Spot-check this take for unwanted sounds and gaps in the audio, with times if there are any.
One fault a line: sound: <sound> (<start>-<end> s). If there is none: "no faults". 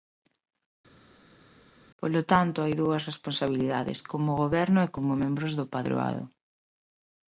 no faults